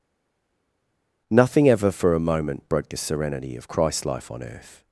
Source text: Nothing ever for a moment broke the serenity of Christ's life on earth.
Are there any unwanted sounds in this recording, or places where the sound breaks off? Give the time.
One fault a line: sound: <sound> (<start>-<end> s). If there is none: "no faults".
no faults